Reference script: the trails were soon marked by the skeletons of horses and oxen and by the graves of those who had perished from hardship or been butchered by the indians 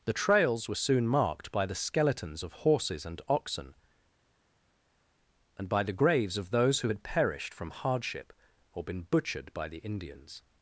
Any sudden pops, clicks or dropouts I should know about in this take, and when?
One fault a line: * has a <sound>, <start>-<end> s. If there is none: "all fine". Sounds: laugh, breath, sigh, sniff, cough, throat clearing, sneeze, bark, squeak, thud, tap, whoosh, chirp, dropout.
all fine